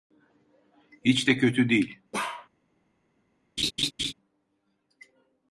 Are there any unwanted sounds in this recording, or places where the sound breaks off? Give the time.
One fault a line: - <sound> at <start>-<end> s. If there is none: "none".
- bark at 2.1-2.5 s
- laugh at 3.6-4.1 s